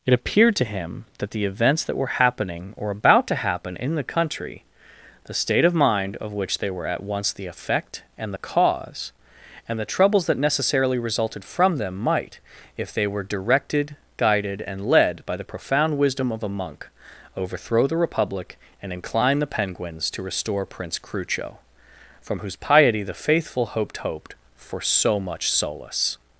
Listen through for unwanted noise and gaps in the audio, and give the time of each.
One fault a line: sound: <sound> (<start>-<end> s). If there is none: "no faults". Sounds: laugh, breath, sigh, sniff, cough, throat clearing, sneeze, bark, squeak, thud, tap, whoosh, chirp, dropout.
no faults